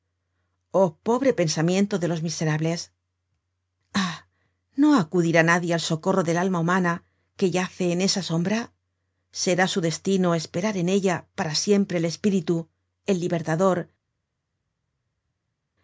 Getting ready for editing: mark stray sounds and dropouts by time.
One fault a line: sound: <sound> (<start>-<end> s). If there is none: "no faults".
no faults